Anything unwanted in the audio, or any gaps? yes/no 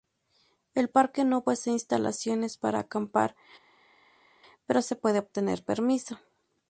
no